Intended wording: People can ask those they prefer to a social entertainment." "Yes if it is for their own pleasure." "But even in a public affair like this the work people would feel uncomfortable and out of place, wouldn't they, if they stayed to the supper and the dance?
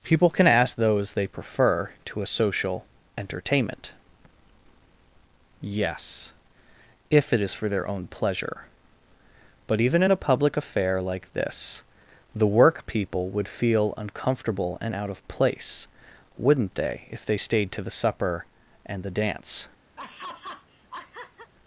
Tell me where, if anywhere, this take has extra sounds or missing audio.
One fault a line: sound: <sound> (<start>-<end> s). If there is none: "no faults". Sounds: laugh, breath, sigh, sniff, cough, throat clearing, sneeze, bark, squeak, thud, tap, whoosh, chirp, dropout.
sound: laugh (20.0-21.5 s)